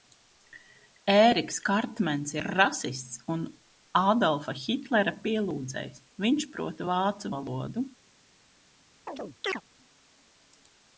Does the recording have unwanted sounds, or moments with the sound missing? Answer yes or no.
yes